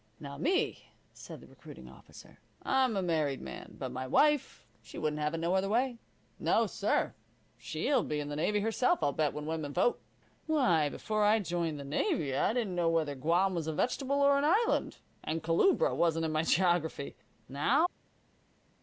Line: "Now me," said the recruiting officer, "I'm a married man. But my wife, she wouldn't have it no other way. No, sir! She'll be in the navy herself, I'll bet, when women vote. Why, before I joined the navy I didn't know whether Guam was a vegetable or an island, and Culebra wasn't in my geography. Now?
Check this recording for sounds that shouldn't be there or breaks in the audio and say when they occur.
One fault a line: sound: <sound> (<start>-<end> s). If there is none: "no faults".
no faults